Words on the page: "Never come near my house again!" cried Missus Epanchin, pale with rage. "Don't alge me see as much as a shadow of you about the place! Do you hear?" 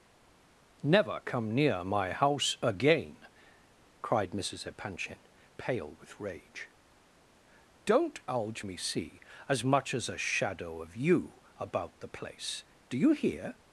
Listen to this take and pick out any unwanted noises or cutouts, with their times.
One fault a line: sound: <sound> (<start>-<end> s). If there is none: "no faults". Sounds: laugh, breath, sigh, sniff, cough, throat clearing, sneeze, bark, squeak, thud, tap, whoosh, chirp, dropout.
no faults